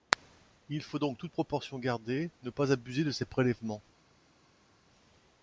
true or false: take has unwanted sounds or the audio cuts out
false